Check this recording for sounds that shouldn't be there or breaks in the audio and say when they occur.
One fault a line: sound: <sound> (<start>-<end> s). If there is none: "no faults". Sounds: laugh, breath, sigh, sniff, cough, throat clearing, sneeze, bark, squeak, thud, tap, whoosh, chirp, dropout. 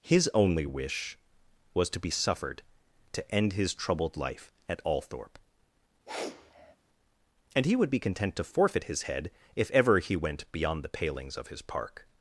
sound: sniff (6.1-6.8 s)